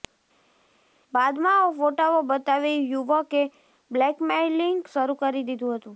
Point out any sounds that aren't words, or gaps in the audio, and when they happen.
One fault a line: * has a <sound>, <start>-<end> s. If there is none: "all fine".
all fine